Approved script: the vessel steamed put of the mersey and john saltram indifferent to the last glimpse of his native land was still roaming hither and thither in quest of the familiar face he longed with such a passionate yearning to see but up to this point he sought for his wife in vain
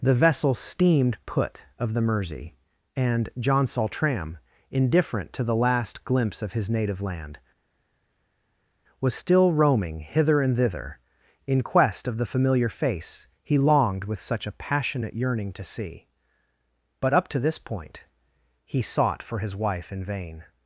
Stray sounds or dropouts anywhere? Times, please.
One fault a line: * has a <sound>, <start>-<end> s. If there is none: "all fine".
all fine